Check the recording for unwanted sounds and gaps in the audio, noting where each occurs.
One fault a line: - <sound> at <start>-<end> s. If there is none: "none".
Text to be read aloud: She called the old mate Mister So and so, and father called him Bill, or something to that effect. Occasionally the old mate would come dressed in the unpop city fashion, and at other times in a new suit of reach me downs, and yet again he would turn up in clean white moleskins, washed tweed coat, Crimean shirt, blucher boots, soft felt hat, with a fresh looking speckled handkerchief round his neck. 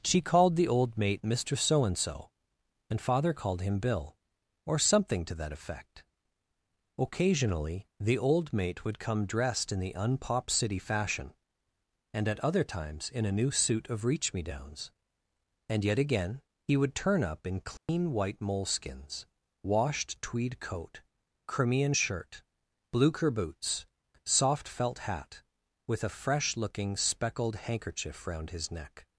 - dropout at 17.8-17.9 s